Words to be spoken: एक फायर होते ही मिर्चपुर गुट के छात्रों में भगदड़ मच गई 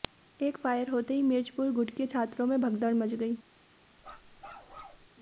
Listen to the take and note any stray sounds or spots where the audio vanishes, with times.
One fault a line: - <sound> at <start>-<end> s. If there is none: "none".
- bark at 4.0-5.1 s